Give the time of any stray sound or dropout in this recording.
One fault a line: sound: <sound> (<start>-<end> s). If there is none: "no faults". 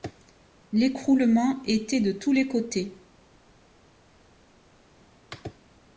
no faults